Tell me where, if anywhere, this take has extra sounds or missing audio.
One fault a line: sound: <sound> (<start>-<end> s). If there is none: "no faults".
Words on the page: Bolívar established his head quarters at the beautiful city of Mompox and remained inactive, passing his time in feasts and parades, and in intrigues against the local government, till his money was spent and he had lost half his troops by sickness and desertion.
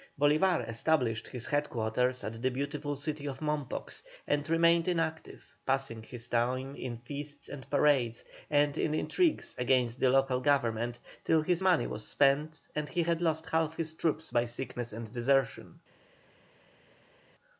no faults